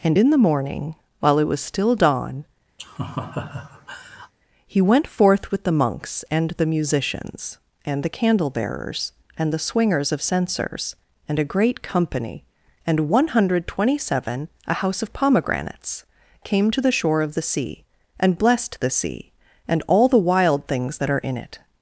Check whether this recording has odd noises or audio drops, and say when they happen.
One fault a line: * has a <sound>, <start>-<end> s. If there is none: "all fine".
* has a laugh, 2.8-4.3 s